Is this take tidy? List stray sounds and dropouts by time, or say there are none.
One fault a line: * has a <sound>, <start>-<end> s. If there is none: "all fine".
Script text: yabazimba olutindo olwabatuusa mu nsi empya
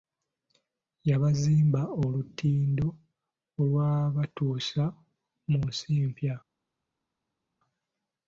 all fine